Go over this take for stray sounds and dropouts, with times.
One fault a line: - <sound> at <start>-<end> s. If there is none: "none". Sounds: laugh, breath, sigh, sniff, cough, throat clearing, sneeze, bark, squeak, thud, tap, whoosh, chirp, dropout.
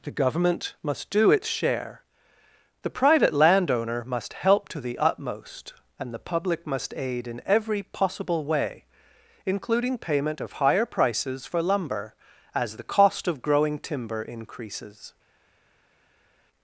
none